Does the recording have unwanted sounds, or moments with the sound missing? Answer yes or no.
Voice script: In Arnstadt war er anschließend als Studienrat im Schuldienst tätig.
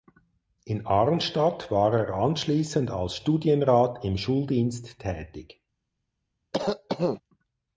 yes